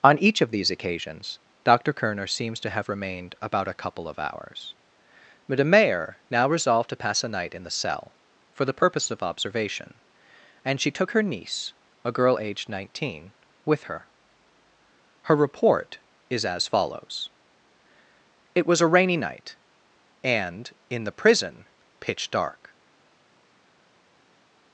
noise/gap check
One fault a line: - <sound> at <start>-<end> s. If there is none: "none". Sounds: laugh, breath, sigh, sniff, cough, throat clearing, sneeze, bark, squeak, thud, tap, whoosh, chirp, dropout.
none